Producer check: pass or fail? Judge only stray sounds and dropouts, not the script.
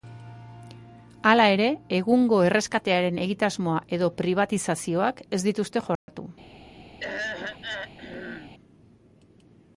fail